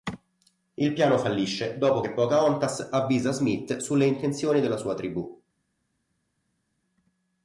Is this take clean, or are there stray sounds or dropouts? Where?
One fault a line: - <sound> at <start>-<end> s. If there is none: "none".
none